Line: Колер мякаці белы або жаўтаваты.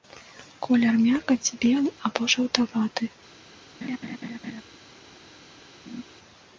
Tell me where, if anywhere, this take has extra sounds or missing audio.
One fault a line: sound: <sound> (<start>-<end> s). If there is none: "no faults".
sound: laugh (3.8-4.6 s)
sound: laugh (5.9-6.0 s)